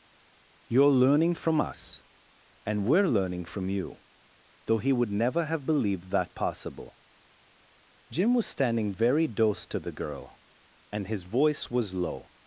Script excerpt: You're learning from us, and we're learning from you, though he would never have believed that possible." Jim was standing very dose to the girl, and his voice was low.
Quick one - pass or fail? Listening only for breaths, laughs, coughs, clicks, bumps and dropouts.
pass